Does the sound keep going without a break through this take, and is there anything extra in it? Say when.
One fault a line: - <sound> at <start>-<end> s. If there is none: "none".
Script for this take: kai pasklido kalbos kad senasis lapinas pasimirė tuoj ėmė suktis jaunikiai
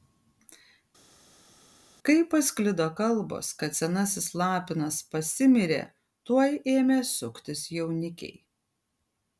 none